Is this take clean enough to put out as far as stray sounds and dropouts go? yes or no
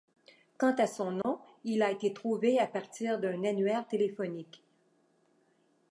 no